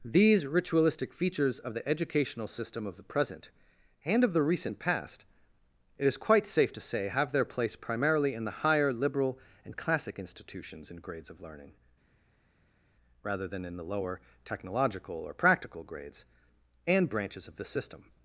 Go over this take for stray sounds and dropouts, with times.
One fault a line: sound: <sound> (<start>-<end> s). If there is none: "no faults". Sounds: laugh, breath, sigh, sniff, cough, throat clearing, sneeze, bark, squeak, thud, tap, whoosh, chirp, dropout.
no faults